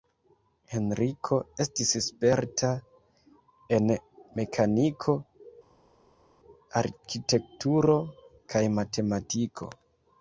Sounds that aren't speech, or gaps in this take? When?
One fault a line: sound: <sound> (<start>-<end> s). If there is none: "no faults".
no faults